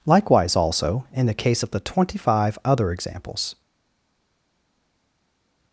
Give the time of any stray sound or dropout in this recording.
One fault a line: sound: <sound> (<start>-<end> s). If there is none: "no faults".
no faults